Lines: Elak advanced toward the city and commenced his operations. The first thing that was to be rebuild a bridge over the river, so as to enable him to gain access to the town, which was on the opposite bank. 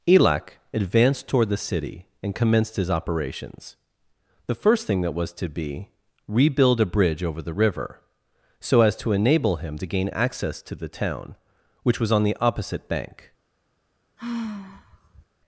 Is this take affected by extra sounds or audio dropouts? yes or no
yes